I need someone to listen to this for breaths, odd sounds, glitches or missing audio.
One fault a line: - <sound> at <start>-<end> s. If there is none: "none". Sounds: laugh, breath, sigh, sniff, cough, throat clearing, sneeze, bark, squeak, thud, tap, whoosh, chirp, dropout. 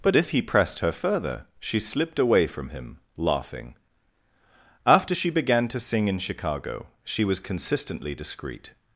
none